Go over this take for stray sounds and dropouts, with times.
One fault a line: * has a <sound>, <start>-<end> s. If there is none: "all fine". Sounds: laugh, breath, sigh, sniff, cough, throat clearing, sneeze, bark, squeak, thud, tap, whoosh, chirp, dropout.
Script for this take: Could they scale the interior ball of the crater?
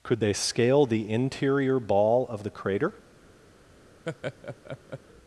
* has a laugh, 4.1-5.0 s